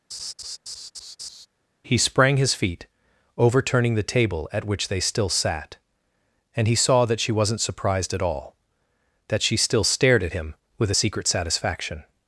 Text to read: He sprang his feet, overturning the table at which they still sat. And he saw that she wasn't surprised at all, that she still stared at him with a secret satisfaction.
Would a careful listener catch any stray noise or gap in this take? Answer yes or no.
yes